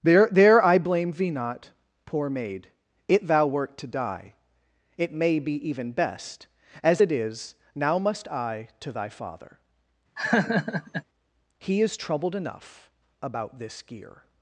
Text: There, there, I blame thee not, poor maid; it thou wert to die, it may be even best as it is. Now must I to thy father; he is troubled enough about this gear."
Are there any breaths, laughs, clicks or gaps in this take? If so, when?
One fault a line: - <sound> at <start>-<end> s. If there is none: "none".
- laugh at 10.2-11.0 s